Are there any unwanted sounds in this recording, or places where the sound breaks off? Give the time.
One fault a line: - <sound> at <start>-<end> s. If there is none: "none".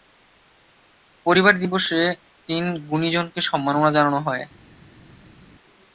none